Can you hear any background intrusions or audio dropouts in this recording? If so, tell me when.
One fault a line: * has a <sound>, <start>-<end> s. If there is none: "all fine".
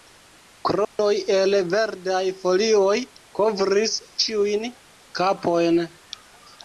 * has a dropout, 0.8-1.0 s